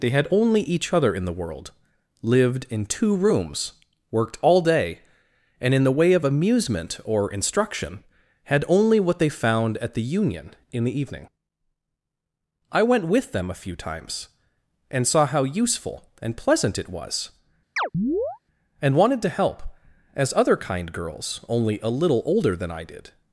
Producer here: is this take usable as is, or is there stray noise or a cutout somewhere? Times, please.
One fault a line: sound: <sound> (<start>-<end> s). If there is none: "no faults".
sound: chirp (17.8-18.4 s)